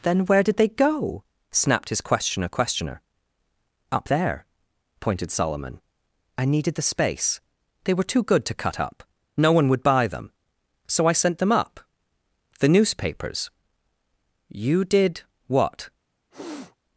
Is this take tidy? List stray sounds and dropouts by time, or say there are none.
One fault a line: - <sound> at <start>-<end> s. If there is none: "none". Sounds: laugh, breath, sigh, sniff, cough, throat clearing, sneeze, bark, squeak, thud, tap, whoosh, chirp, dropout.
- sniff at 16.3-16.8 s